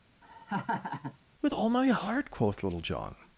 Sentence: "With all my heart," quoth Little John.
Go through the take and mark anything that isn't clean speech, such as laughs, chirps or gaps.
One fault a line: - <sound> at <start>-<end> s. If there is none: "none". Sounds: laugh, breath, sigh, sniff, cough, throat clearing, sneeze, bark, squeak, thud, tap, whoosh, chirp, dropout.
- laugh at 0.2-1.2 s